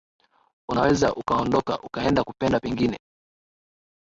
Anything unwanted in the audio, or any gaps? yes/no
no